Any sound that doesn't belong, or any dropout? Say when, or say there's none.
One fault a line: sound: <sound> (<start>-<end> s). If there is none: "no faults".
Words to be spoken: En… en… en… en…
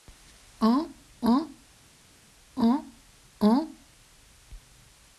no faults